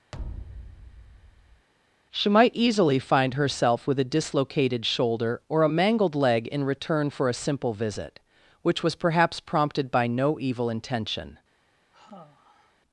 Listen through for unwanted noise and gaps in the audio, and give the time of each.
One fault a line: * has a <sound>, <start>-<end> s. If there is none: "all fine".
* has a thud, 0.1-1.7 s
* has a sigh, 11.9-12.8 s